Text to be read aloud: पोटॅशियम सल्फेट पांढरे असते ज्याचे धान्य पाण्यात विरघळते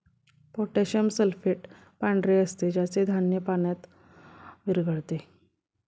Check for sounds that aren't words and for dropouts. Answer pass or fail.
pass